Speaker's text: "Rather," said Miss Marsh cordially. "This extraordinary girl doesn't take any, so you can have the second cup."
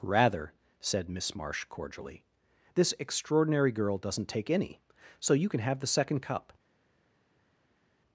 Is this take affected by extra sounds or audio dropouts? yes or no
no